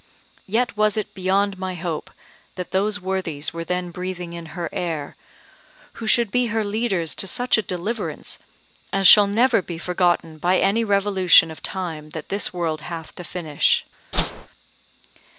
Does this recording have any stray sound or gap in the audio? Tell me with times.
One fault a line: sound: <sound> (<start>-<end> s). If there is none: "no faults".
sound: whoosh (14.1-14.5 s)